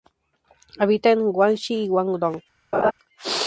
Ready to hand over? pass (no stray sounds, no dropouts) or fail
fail